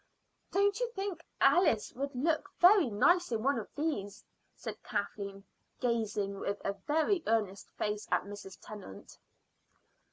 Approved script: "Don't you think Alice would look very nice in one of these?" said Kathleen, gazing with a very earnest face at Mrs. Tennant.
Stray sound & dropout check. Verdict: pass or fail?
pass